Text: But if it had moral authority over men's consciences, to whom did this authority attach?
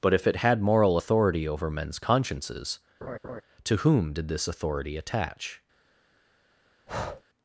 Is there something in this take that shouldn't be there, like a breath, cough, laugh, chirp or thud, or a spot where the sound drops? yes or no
yes